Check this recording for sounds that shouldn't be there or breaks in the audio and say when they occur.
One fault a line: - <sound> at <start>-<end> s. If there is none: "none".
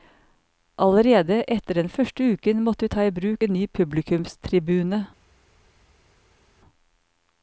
none